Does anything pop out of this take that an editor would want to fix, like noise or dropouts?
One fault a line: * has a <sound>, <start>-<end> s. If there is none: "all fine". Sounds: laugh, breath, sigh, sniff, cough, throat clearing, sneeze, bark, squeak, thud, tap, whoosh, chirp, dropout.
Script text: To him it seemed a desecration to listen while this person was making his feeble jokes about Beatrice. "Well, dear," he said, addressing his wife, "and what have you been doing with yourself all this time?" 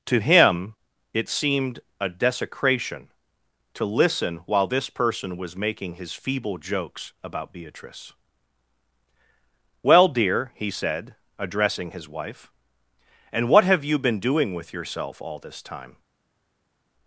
all fine